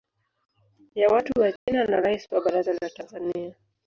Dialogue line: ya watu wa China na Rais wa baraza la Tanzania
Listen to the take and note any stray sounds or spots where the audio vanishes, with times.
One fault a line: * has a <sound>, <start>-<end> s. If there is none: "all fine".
* has a dropout, 1.6-1.7 s